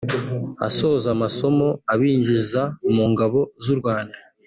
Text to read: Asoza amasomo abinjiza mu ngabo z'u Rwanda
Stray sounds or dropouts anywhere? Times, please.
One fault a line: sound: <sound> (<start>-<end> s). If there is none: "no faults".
no faults